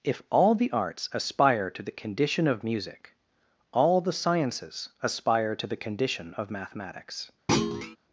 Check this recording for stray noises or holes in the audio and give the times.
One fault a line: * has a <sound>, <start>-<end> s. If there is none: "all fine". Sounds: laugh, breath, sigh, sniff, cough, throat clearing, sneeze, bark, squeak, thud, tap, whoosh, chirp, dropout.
* has a thud, 7.5-8.0 s